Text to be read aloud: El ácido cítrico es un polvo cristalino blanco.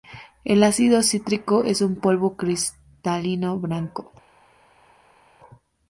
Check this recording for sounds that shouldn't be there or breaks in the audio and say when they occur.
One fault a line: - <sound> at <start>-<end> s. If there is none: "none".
none